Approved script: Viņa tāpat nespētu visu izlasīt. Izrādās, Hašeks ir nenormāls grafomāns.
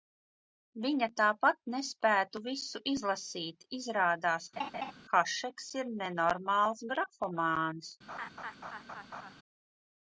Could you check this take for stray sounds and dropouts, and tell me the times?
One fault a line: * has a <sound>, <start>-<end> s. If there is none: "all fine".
* has a laugh, 4.6-4.9 s
* has a laugh, 8.1-9.3 s